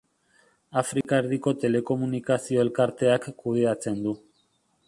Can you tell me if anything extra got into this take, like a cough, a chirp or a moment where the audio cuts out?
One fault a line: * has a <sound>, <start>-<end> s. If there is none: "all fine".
* has a dropout, 1.0-1.0 s